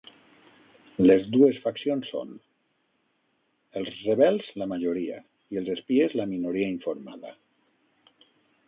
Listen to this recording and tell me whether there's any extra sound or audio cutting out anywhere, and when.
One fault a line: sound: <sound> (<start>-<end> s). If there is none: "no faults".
no faults